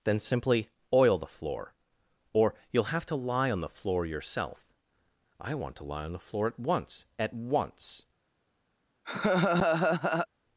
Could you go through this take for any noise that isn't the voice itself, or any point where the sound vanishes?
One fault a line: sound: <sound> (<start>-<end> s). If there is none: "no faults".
sound: laugh (9.0-10.3 s)